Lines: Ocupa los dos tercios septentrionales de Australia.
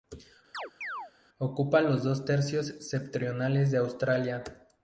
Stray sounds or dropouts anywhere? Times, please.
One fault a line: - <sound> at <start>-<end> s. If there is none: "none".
- chirp at 0.5-1.1 s